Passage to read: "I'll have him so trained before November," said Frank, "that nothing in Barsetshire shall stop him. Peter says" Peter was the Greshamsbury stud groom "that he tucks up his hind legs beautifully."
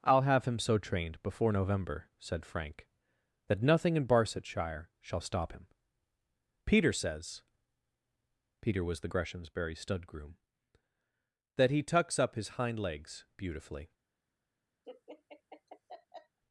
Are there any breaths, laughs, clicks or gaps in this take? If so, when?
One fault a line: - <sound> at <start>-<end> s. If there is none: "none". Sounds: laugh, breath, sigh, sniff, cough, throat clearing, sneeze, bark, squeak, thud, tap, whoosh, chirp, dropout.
- laugh at 14.8-16.4 s